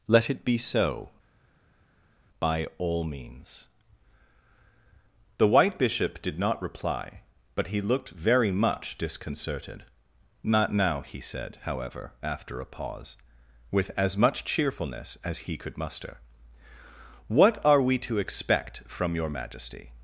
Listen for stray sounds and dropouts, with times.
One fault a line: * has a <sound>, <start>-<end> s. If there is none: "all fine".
all fine